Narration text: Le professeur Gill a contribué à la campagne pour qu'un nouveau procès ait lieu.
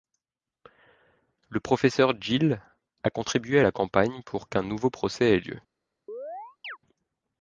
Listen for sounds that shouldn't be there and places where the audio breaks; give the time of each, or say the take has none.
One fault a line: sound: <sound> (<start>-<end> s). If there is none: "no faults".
sound: chirp (6.1-6.8 s)